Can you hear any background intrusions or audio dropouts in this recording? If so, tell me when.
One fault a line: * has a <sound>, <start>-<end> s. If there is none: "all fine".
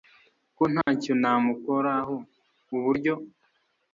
* has a dropout, 0.8-0.9 s